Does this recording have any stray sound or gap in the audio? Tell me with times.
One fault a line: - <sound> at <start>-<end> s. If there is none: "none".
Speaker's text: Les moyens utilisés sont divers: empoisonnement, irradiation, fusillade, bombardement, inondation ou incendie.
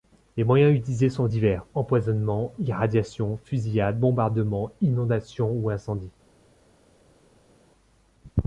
none